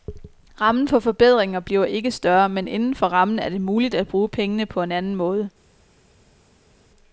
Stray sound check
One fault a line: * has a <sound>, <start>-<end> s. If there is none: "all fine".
all fine